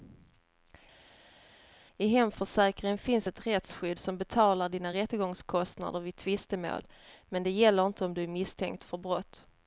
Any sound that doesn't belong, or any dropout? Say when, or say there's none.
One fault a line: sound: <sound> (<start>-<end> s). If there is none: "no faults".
no faults